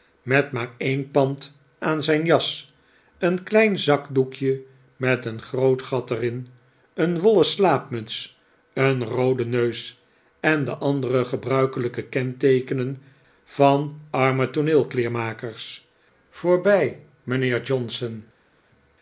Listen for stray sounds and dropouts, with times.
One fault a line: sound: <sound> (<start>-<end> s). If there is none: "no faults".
no faults